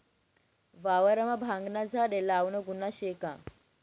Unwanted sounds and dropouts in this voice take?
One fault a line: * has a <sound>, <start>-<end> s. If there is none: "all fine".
all fine